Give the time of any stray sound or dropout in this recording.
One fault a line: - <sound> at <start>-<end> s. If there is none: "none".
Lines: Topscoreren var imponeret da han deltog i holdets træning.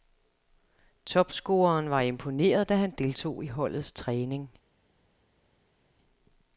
none